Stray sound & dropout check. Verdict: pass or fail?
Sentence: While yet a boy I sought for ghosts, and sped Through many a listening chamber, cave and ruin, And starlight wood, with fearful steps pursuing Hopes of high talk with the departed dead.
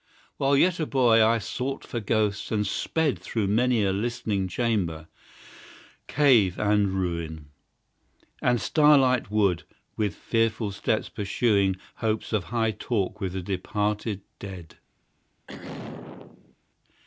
fail